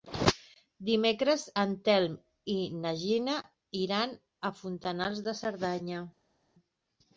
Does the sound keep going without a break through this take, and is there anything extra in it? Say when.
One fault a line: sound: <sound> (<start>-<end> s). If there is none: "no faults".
no faults